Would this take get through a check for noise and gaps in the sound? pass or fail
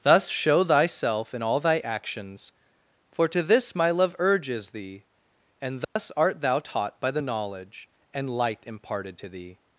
fail